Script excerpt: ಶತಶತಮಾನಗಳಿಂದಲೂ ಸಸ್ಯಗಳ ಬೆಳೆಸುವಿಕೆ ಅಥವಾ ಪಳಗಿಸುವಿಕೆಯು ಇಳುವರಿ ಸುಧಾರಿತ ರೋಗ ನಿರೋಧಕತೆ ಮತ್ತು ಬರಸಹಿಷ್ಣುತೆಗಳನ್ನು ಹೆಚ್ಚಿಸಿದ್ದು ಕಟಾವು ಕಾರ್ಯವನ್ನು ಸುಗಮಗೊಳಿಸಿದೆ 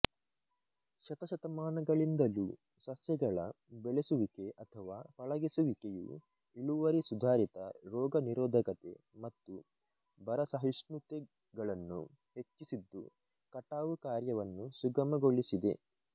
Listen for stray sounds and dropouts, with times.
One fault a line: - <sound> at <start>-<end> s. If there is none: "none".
none